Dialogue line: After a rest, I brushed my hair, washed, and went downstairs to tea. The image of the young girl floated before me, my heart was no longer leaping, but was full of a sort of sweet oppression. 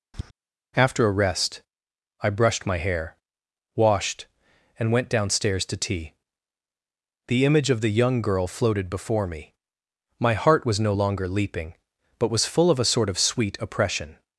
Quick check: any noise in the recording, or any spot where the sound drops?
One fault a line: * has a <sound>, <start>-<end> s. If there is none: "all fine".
* has a tap, 0.1-0.3 s